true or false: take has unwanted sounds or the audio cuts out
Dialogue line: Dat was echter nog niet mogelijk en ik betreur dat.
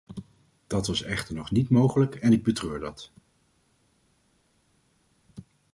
false